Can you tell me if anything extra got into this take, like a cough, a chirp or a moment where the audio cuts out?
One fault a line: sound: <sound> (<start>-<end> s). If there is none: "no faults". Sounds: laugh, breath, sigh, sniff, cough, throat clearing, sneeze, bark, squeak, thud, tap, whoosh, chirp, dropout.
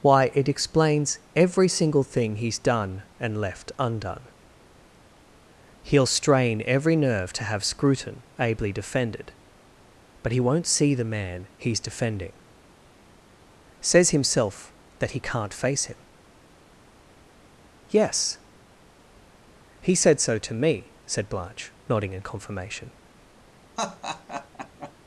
sound: laugh (23.8-24.9 s)